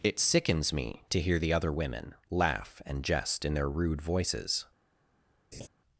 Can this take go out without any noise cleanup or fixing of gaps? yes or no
no